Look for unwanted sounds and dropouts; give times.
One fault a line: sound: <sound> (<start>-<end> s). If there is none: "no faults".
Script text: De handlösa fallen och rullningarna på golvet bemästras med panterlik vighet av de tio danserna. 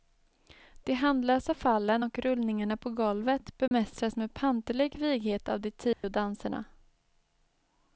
sound: dropout (3.7-3.7 s)
sound: dropout (5.9-6.0 s)